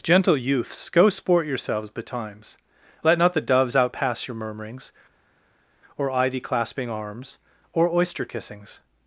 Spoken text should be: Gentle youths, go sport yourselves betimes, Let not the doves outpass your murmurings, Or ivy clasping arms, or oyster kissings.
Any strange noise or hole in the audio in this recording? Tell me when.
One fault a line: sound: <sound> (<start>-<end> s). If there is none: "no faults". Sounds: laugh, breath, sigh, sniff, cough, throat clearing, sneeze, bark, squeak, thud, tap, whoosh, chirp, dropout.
no faults